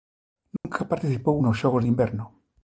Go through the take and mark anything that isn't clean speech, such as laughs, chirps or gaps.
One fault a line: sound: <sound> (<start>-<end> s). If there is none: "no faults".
sound: dropout (0.6-0.6 s)